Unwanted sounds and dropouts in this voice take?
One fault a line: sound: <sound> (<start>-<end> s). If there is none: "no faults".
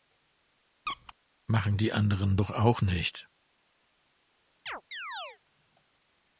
sound: squeak (0.9-1.1 s)
sound: chirp (4.7-5.4 s)